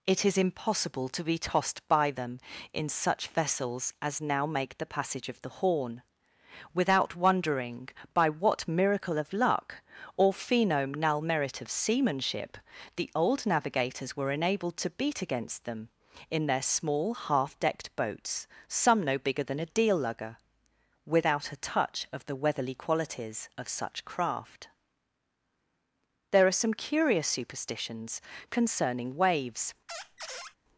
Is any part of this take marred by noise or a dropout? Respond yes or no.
yes